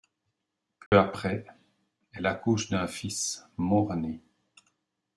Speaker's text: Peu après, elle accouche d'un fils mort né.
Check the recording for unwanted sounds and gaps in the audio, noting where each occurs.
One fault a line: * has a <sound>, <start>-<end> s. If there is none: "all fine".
* has a dropout, 0.9-0.9 s